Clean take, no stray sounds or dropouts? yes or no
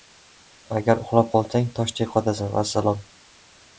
yes